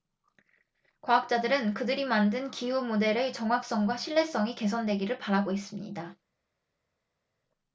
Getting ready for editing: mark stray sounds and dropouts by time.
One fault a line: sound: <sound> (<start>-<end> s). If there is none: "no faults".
no faults